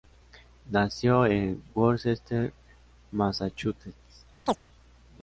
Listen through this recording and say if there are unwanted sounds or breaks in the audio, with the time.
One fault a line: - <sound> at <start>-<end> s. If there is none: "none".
- chirp at 4.5-4.6 s